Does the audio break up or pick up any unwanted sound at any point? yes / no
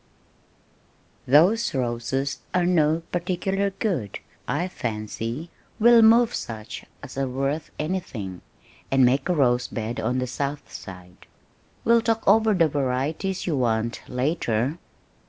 no